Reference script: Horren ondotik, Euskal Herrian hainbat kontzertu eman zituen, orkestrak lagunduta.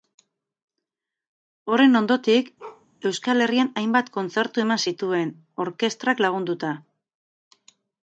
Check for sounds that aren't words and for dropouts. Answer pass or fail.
fail